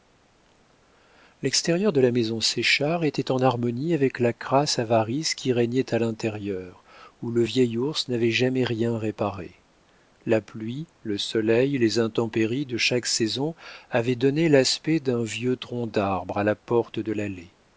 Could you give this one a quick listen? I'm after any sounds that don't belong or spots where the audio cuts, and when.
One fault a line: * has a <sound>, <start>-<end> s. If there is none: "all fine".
all fine